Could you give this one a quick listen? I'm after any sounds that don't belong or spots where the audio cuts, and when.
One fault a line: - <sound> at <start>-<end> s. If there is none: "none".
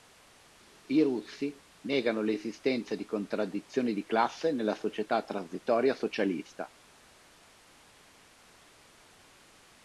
none